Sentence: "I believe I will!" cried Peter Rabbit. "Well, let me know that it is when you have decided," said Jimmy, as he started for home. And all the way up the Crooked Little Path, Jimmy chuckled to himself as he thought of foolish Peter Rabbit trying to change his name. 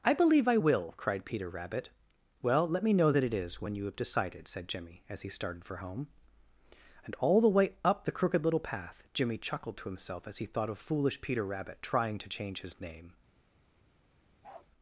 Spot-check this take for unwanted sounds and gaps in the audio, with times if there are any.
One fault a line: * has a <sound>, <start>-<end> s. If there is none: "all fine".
* has a bark, 14.4-14.7 s